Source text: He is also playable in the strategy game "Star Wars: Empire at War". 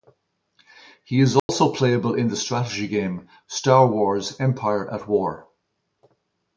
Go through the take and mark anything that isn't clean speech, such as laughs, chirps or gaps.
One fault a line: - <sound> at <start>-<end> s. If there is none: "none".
- dropout at 1.4-1.5 s